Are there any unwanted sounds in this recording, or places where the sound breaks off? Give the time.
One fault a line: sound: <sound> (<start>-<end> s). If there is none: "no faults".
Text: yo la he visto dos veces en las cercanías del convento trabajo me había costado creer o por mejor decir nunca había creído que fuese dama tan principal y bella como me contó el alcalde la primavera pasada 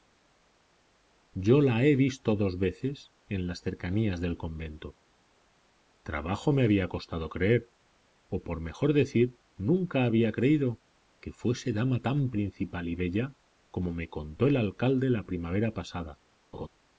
sound: laugh (16.5-16.7 s)